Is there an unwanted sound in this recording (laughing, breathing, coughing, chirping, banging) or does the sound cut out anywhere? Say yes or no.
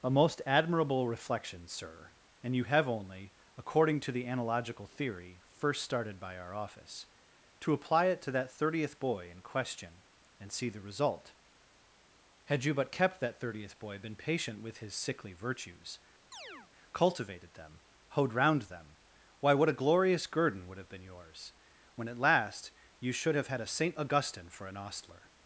yes